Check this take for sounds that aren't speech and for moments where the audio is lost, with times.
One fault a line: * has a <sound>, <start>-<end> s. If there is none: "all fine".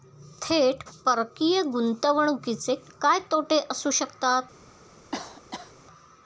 * has a cough, 5.1-5.7 s